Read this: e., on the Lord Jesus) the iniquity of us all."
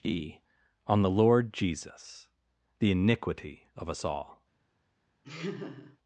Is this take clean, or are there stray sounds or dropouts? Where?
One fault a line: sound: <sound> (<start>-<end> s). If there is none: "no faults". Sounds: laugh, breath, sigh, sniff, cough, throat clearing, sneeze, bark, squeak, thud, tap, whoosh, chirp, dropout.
sound: laugh (5.2-6.0 s)